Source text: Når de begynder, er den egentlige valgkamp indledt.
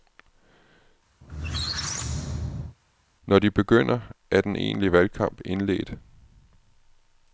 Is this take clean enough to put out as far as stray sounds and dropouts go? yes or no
no